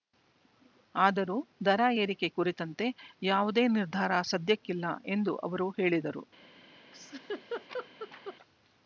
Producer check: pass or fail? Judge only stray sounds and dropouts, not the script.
fail